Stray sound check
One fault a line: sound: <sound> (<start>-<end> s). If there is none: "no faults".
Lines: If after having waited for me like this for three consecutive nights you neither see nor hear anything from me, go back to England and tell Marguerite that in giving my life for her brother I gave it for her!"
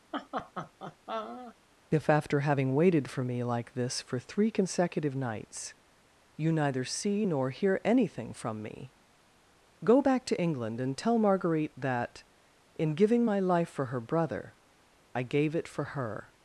sound: laugh (0.1-1.6 s)